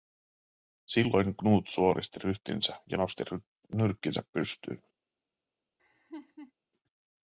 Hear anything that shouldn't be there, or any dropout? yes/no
yes